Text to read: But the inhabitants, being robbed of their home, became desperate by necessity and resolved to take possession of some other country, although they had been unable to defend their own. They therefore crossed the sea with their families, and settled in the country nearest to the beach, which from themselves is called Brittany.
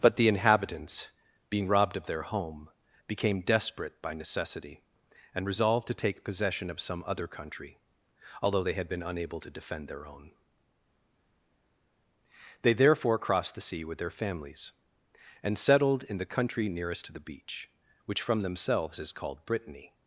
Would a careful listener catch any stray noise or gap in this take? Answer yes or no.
no